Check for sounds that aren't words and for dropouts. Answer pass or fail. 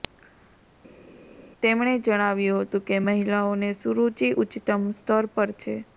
pass